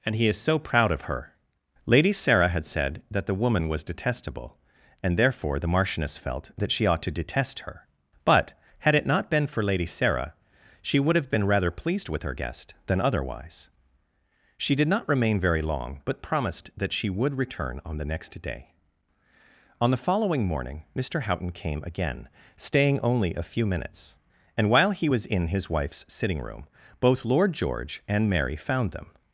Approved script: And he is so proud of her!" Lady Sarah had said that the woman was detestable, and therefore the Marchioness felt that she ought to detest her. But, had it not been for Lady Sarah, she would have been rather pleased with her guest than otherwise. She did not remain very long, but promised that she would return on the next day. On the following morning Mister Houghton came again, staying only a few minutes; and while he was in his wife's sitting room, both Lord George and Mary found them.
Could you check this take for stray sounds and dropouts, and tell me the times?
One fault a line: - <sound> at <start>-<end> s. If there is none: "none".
none